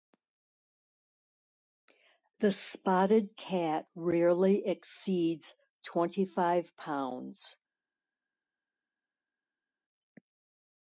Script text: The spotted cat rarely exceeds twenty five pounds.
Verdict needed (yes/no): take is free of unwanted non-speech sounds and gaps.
yes